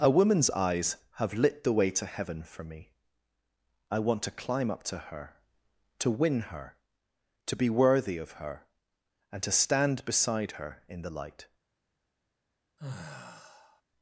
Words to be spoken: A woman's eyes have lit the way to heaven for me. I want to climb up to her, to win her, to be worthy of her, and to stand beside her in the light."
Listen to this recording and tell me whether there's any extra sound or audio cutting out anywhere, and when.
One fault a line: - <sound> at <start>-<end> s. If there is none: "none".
- sigh at 12.8-13.8 s